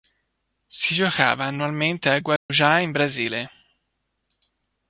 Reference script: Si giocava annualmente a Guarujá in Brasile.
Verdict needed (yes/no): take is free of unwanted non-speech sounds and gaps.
no